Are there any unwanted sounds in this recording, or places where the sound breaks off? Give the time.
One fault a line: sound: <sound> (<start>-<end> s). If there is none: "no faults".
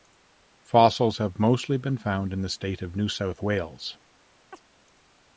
sound: chirp (4.5-4.6 s)